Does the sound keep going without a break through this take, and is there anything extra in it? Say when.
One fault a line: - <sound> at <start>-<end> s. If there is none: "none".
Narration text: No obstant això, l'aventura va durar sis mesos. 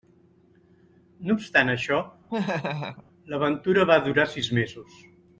- laugh at 2.3-3.0 s